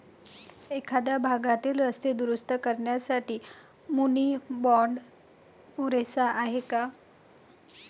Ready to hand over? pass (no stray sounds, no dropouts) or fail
pass